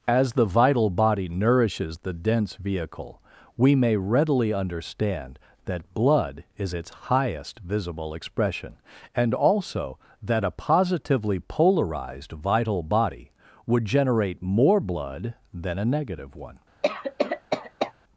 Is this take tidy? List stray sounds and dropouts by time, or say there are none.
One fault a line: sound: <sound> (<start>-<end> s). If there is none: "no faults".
sound: cough (16.8-17.9 s)